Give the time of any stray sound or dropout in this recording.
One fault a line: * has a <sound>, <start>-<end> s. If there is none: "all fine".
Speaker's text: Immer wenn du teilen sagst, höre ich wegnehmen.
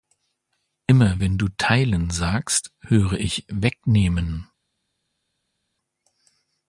all fine